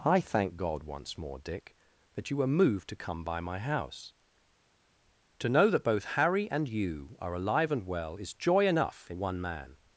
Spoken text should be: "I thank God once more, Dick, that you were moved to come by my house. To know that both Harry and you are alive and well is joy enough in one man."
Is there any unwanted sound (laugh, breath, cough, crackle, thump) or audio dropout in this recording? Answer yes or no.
no